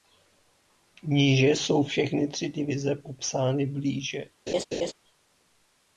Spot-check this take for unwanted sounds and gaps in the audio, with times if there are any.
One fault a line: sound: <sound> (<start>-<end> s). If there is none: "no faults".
sound: laugh (4.5-4.9 s)